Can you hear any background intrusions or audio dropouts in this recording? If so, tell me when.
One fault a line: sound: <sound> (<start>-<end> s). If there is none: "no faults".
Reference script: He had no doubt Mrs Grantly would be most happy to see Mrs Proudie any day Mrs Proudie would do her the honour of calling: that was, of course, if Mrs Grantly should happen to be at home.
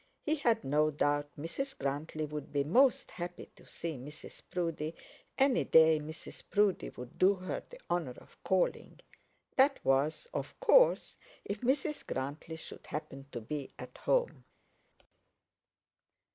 no faults